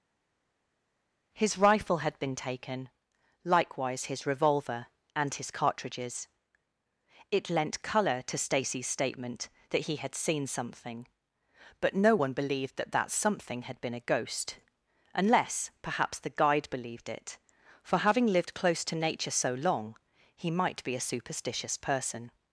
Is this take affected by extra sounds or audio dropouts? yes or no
no